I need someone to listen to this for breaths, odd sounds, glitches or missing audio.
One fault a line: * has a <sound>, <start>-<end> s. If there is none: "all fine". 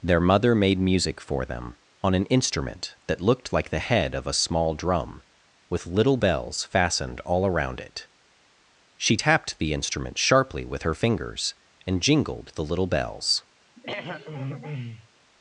* has a throat clearing, 13.7-15.1 s